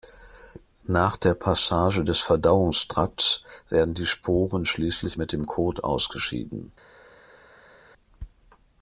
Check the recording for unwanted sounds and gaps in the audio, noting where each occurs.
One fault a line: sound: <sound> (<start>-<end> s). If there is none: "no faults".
no faults